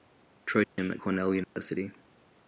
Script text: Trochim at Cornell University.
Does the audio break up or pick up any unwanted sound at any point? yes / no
yes